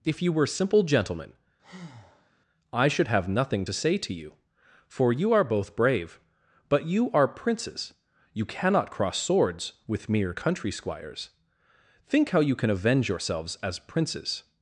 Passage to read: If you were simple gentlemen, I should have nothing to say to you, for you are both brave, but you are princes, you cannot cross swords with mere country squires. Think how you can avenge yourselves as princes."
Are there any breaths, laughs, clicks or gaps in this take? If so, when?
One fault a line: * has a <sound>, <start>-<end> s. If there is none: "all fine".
* has a breath, 1.6-2.3 s